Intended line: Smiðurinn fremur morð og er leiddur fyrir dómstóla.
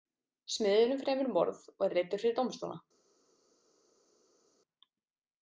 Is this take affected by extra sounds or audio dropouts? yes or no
no